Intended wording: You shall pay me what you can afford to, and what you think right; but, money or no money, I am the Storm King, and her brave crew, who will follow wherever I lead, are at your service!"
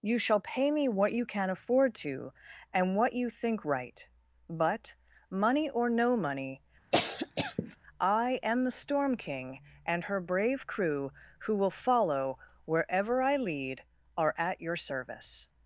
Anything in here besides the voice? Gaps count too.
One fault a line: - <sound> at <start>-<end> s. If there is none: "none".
- cough at 6.9-7.8 s